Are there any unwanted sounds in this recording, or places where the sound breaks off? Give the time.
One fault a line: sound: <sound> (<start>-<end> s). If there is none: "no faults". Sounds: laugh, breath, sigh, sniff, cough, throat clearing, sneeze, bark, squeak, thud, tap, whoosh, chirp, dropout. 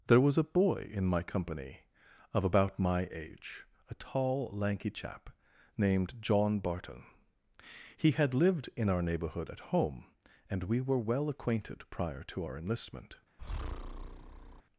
sound: breath (13.4-14.6 s)